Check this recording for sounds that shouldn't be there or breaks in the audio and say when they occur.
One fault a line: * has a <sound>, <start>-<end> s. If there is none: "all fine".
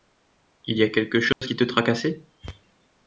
* has a dropout, 1.3-1.4 s